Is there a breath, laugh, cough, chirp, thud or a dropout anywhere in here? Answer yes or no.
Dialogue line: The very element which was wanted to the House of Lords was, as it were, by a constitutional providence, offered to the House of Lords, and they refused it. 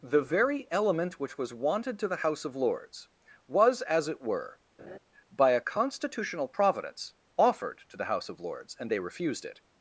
yes